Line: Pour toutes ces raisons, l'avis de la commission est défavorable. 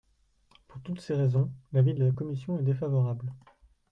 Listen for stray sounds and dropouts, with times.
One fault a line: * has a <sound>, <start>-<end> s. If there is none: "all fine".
all fine